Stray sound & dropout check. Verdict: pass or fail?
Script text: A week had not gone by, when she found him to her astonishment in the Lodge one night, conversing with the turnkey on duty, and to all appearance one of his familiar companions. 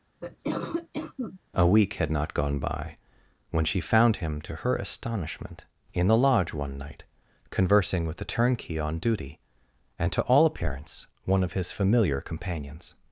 fail